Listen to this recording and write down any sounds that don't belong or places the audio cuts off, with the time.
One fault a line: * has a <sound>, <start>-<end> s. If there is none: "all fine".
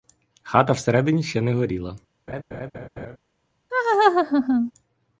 * has a laugh, 2.3-3.2 s
* has a laugh, 3.7-4.7 s